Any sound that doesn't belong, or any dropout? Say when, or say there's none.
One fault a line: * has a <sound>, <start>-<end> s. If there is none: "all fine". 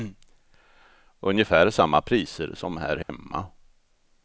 * has a dropout, 3.0-3.1 s